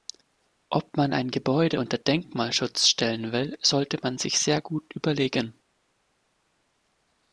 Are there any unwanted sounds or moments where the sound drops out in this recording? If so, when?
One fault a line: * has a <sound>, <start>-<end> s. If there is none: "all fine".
all fine